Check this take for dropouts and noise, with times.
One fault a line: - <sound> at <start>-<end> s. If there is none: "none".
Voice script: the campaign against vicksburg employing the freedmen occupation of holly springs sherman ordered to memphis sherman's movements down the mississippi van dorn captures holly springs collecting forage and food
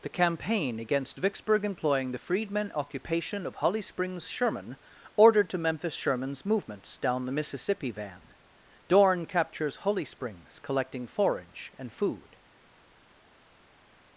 none